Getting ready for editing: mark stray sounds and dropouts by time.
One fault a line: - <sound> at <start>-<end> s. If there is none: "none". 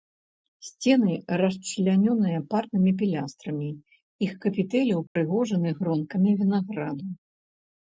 - dropout at 5.1-5.2 s